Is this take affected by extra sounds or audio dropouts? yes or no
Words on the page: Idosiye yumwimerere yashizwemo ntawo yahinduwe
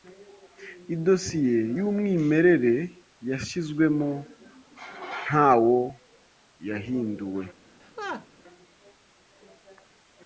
yes